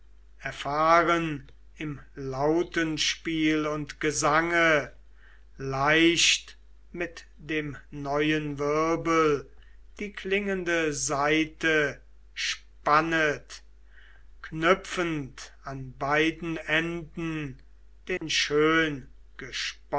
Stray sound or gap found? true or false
true